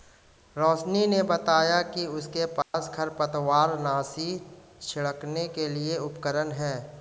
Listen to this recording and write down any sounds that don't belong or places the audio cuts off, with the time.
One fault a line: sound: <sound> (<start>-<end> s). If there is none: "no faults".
sound: dropout (2.6-2.7 s)